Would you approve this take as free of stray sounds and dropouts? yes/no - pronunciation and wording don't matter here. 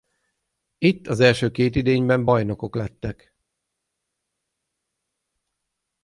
yes